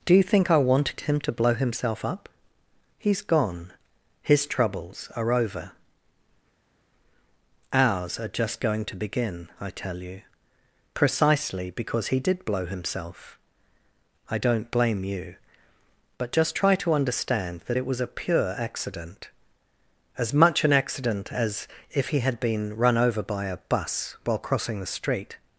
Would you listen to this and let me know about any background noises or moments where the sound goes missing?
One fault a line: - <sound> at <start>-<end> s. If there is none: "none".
none